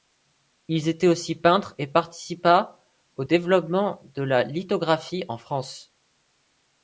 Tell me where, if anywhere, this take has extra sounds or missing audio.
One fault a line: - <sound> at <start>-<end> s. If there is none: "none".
none